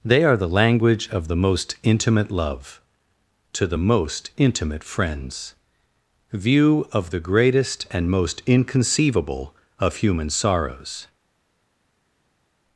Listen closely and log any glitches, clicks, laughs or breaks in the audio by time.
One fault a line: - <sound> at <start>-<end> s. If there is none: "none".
none